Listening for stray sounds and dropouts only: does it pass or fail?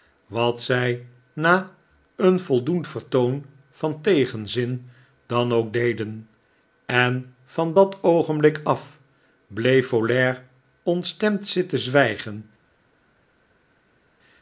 pass